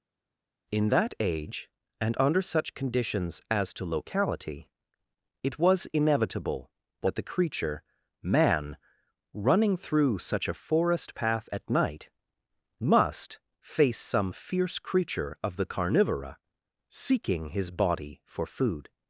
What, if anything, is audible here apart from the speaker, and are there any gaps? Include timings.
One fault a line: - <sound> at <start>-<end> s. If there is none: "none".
none